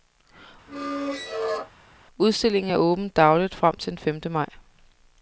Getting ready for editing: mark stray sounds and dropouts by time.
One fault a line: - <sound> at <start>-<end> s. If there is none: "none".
- squeak at 0.7-1.7 s